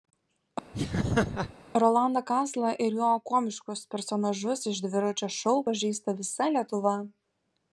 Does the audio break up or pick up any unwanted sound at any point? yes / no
yes